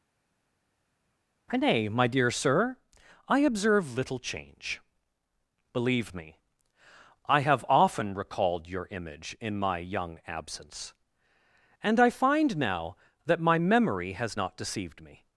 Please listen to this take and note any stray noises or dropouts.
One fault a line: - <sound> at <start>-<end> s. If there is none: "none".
none